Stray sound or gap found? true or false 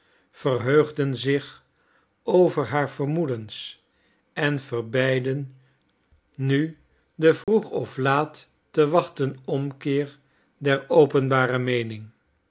true